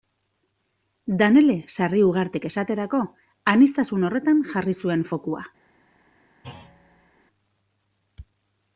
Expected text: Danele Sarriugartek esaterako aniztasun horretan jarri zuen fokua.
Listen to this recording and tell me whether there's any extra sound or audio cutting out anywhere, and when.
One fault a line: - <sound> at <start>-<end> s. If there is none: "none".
- thud at 6.4-7.1 s